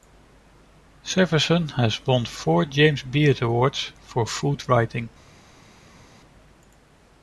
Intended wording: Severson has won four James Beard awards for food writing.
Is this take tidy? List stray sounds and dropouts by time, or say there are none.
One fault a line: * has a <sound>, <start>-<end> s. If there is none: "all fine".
all fine